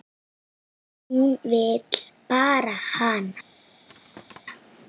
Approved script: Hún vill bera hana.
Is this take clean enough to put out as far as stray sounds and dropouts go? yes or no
no